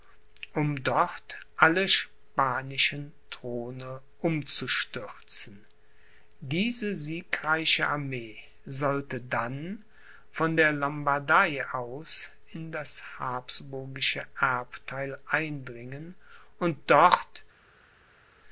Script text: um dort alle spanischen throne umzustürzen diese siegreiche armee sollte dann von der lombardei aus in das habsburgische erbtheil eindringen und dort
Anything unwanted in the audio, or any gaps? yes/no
no